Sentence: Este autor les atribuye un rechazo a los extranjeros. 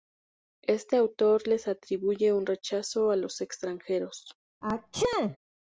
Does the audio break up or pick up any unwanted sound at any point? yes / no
yes